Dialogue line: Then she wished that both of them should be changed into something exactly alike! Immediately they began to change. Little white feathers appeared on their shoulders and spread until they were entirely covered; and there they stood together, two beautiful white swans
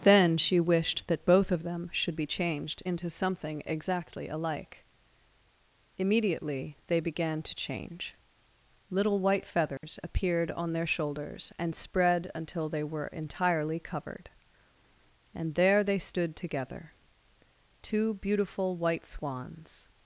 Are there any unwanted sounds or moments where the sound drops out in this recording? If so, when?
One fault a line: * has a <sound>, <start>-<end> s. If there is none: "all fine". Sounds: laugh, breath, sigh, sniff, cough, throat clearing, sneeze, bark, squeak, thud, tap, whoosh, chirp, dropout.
* has a dropout, 9.8-9.8 s